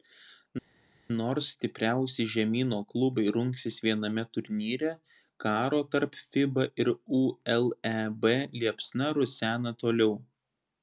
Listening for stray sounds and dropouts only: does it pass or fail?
pass